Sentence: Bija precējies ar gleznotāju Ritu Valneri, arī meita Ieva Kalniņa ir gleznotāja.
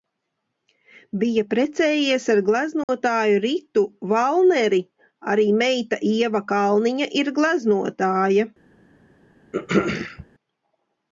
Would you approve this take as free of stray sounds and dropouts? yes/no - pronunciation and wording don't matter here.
no